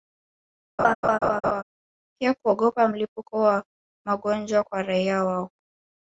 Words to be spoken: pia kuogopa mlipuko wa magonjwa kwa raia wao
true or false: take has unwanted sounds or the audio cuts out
true